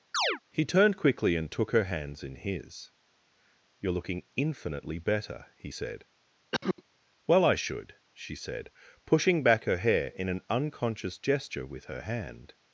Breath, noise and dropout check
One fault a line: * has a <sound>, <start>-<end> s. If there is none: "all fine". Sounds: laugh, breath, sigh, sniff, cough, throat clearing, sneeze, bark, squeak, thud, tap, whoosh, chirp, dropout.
* has a chirp, 0.1-0.4 s
* has a cough, 6.5-6.8 s